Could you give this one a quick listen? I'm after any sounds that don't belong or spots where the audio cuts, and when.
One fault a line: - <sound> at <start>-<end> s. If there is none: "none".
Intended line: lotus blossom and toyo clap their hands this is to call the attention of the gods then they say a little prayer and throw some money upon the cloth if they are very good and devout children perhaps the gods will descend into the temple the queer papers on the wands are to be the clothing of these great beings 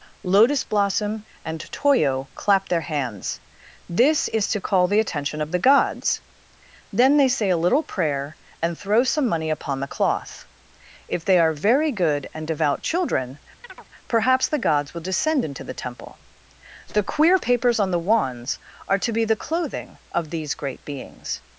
- chirp at 13.6-13.9 s